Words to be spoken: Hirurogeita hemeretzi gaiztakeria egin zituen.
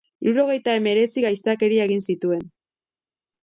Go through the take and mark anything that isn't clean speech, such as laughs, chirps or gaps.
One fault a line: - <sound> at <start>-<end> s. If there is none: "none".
none